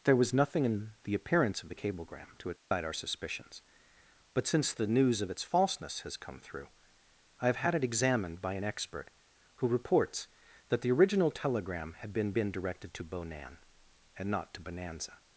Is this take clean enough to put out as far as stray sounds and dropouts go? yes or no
no